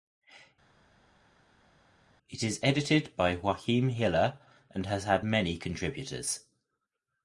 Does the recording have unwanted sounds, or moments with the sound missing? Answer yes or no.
no